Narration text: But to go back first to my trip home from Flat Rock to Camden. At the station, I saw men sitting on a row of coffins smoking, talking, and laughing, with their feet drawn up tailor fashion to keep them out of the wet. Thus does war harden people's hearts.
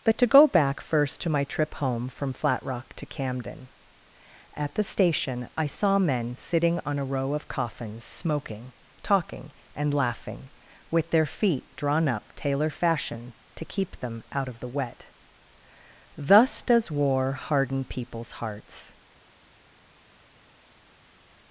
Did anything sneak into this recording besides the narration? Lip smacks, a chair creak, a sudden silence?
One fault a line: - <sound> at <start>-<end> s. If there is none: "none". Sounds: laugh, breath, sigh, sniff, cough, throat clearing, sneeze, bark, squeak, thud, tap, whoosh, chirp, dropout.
none